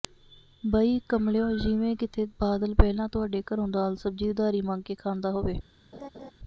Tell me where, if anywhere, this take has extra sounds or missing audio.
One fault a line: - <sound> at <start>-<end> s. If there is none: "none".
- laugh at 5.9-6.3 s